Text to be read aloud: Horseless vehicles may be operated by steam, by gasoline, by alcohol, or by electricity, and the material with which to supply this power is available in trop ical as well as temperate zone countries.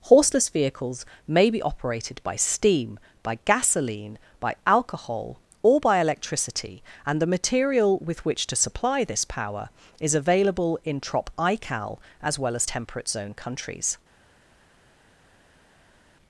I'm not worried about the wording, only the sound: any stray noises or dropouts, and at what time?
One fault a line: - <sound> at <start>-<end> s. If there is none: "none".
none